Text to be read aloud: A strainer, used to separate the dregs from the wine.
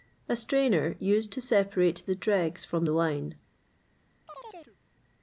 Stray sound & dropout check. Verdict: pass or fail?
fail